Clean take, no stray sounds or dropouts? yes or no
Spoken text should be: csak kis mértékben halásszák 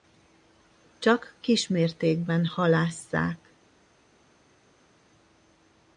yes